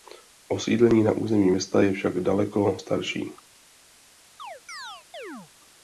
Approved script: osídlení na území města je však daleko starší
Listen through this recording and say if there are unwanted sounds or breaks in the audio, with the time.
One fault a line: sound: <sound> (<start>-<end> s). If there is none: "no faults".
sound: chirp (4.4-5.5 s)